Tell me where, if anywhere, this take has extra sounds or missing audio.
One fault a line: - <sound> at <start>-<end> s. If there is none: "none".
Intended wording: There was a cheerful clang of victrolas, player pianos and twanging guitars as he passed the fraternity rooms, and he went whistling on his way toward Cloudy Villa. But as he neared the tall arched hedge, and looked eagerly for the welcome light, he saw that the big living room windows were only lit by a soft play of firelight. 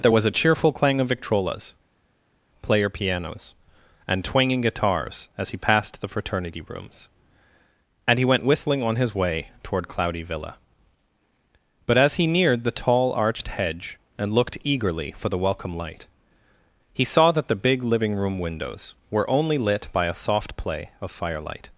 none